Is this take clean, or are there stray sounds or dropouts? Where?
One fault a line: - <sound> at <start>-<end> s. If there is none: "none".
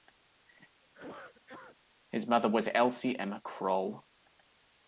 - cough at 0.8-1.8 s